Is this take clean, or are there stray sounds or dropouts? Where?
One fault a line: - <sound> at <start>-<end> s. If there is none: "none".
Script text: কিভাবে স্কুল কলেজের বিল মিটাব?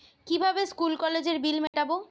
- dropout at 1.7-1.7 s